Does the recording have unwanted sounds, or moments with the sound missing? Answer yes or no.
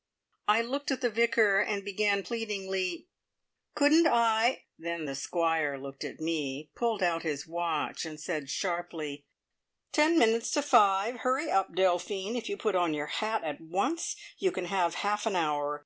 no